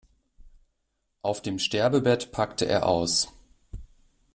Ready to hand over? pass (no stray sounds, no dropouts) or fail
pass